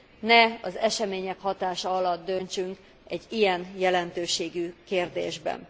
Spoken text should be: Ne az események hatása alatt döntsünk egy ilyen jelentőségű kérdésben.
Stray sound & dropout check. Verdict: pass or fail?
pass